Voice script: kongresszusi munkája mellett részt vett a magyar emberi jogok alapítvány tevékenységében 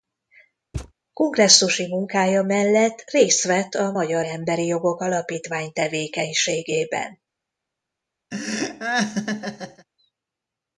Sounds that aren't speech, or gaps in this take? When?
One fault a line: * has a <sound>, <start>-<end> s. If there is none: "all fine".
* has a thud, 0.7-0.9 s
* has a laugh, 8.3-9.9 s